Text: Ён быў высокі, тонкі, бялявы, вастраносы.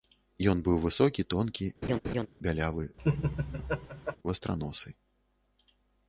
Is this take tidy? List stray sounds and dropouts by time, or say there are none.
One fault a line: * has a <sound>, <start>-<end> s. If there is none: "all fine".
* has a laugh, 1.8-2.3 s
* has a laugh, 3.0-4.2 s